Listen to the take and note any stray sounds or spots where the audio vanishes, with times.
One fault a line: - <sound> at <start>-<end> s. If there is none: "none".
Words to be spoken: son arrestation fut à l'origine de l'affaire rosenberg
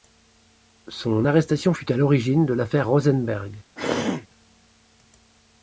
- throat clearing at 3.8-4.3 s